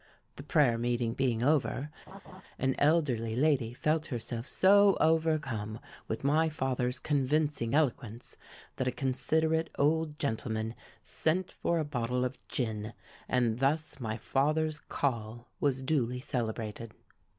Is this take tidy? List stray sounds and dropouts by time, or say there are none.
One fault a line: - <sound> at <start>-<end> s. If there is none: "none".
- laugh at 2.1-2.4 s